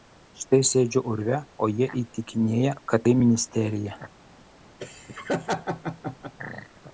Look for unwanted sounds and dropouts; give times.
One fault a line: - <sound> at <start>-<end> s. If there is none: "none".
- laugh at 4.8-6.3 s